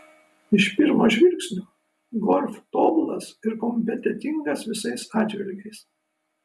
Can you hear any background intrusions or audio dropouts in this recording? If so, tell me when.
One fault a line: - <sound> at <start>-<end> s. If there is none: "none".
none